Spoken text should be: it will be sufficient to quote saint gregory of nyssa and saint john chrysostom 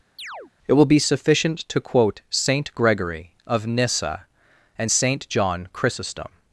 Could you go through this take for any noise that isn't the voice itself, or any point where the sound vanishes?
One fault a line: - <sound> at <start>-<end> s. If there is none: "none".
- chirp at 0.2-0.5 s